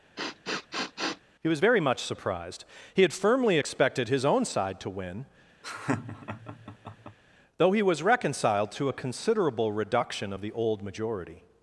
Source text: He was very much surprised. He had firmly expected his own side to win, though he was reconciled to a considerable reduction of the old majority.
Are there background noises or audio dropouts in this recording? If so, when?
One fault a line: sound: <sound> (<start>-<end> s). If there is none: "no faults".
sound: sniff (0.2-1.2 s)
sound: laugh (5.6-7.2 s)